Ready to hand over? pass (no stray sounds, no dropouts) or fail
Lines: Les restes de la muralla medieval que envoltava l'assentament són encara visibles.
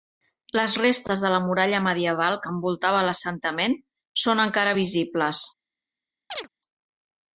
fail